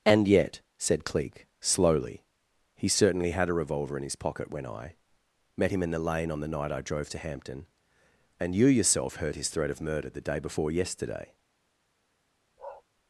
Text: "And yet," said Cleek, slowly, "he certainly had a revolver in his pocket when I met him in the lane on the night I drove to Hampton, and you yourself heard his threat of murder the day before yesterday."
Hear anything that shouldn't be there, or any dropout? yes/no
yes